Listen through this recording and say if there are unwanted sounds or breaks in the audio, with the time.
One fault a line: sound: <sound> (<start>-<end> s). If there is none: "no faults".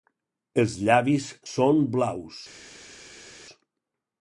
no faults